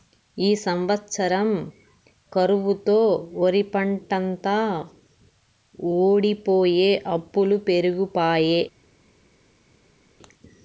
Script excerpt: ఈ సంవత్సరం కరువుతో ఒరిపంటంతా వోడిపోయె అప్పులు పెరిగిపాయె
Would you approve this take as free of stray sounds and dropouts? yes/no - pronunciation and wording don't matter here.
yes